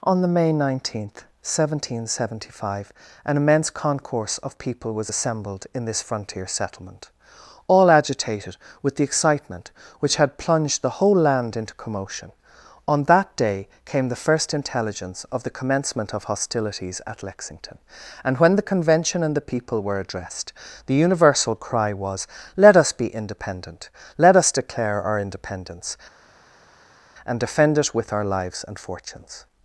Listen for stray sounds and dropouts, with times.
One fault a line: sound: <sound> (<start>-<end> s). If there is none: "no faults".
no faults